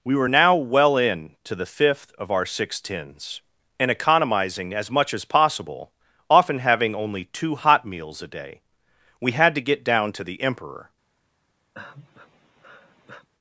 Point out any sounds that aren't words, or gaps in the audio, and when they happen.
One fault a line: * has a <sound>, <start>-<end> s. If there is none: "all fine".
* has a sigh, 11.7-13.3 s